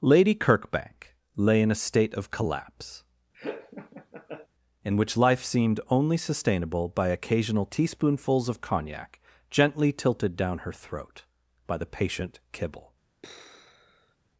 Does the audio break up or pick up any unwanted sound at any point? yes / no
yes